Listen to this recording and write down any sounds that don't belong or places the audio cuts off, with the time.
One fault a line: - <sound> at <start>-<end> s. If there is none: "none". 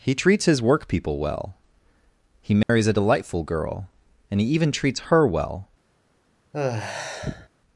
- dropout at 2.6-2.7 s
- sigh at 6.5-7.5 s